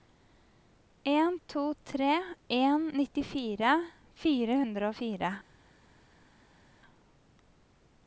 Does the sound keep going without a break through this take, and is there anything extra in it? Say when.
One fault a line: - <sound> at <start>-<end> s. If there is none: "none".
none